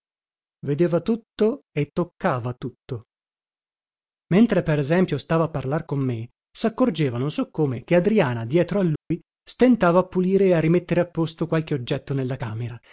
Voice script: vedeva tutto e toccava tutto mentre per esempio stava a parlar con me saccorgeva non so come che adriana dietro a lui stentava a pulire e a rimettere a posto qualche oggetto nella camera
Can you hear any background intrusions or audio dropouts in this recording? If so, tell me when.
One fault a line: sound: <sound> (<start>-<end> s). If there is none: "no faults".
sound: dropout (9.0-9.1 s)